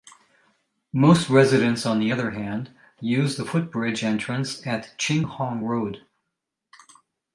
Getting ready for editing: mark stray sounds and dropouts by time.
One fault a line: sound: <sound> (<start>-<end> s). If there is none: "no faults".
no faults